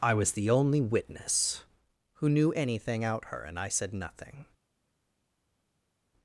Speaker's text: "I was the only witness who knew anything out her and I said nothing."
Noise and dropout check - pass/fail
pass